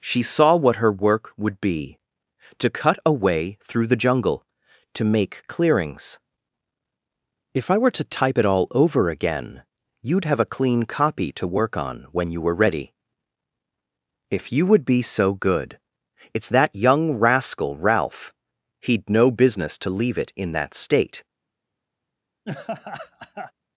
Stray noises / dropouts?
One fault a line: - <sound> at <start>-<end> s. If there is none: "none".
- laugh at 22.4-23.5 s